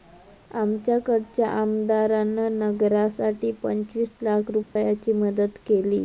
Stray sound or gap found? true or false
true